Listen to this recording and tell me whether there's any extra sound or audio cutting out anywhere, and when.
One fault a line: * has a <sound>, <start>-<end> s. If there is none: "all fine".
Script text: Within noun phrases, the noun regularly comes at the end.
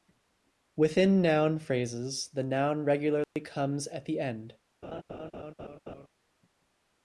* has a dropout, 3.2-3.4 s
* has a laugh, 4.8-6.1 s